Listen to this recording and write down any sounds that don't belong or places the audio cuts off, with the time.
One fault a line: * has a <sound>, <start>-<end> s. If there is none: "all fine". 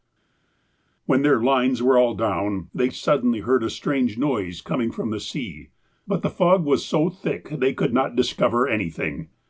all fine